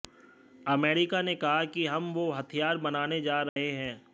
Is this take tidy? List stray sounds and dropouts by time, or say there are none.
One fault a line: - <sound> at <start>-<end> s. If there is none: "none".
- dropout at 3.5-3.6 s